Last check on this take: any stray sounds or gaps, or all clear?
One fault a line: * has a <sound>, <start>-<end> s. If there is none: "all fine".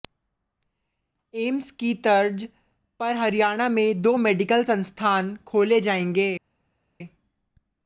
all fine